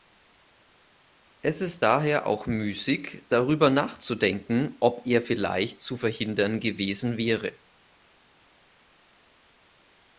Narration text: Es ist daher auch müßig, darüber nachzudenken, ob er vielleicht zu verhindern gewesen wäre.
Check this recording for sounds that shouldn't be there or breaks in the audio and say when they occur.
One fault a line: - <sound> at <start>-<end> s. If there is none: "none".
none